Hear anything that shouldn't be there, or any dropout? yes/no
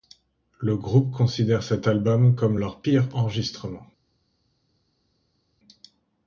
no